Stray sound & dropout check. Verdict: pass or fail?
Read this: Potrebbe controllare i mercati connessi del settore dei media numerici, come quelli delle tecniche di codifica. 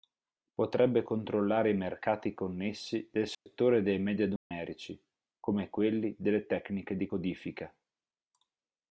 fail